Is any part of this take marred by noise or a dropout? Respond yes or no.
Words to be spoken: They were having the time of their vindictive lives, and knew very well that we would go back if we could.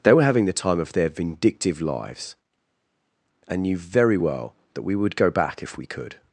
no